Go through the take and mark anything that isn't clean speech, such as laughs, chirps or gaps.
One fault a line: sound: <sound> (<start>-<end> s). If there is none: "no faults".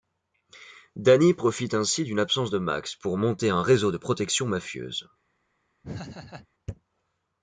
sound: laugh (5.8-6.5 s)